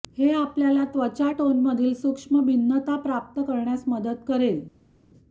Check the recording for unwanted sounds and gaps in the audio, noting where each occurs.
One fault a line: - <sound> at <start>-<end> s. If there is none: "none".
none